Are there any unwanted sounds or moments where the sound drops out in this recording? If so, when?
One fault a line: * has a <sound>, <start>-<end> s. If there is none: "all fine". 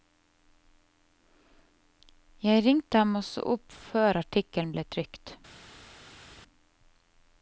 all fine